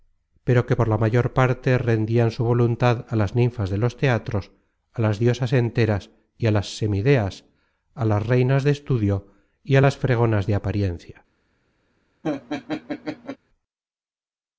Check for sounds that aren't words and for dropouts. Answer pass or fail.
fail